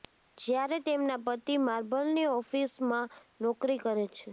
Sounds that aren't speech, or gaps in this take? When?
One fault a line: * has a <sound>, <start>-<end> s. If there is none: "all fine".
all fine